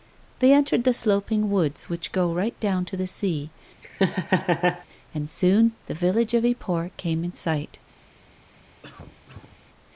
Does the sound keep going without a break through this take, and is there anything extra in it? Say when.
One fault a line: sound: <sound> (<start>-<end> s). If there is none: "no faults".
sound: laugh (3.8-4.9 s)
sound: cough (8.8-9.6 s)